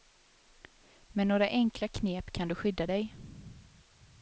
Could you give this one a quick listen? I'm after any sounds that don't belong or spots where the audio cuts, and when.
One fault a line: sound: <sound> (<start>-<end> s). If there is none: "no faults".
no faults